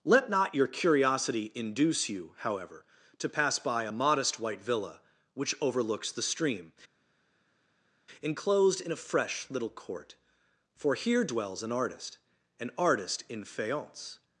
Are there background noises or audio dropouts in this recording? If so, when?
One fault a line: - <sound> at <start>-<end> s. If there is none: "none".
none